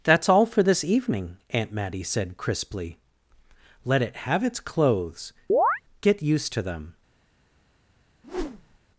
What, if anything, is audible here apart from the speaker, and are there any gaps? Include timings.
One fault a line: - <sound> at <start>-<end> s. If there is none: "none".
- chirp at 5.5-5.8 s
- whoosh at 8.2-8.8 s